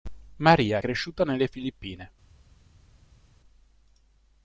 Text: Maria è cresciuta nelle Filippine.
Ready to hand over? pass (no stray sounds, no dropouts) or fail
pass